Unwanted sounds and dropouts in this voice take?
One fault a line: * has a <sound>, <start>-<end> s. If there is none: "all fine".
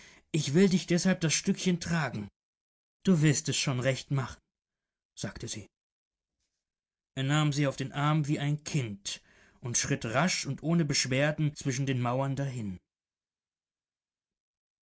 all fine